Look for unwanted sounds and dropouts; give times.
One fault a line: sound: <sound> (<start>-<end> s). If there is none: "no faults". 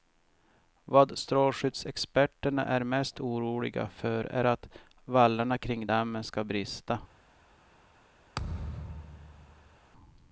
sound: thud (8.3-9.8 s)